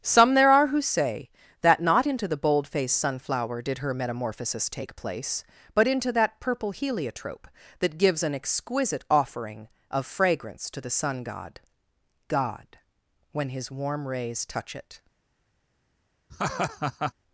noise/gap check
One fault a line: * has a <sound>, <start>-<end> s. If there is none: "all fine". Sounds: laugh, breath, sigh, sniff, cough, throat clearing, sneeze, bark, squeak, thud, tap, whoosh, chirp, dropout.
* has a laugh, 16.3-17.1 s